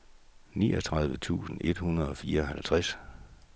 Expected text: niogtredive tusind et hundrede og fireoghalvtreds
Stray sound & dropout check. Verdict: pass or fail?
pass